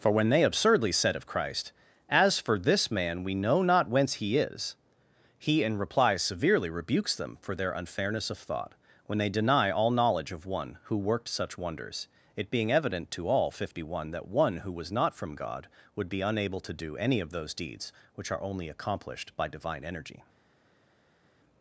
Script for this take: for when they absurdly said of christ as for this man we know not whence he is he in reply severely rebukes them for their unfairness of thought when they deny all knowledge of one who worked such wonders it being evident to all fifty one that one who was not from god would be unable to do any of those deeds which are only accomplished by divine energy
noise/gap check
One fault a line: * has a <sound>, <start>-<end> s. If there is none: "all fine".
all fine